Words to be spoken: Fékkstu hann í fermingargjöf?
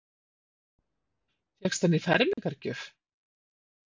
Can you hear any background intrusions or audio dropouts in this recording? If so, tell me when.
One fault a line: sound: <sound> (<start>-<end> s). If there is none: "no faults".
sound: dropout (2.3-2.4 s)